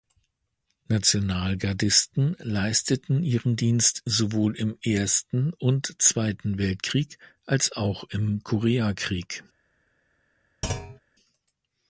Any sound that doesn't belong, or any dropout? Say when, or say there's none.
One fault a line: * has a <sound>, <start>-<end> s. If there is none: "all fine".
* has a thud, 10.6-11.0 s